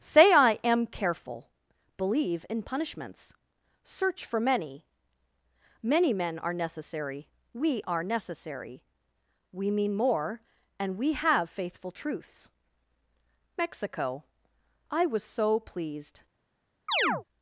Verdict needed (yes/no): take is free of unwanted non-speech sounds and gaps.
no